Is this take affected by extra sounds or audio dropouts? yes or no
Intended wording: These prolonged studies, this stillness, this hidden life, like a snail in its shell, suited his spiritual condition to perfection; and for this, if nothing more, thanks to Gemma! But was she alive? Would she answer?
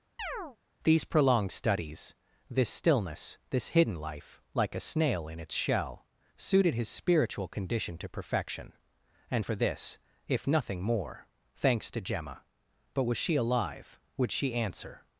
yes